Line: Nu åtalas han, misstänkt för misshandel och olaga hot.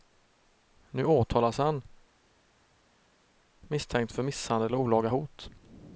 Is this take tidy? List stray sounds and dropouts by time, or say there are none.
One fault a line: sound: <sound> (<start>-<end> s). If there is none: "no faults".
no faults